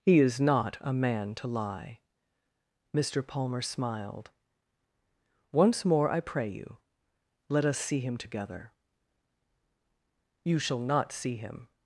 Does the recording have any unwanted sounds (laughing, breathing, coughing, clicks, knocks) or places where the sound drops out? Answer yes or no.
no